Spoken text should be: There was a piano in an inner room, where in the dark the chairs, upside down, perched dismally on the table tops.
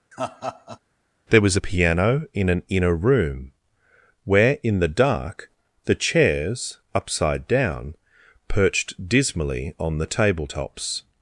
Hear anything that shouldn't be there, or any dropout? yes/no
yes